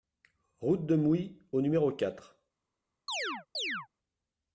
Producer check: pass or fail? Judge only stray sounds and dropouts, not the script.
fail